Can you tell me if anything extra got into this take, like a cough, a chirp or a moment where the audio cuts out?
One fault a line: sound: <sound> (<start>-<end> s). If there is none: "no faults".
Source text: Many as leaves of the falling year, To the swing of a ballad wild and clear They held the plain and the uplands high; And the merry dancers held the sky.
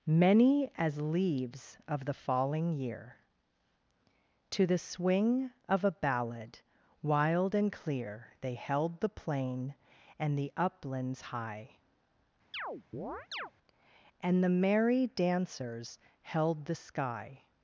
sound: chirp (12.5-13.5 s)